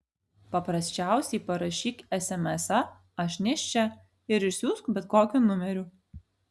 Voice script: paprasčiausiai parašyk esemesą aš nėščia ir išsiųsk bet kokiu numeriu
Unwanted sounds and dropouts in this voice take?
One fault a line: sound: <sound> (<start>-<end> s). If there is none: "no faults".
no faults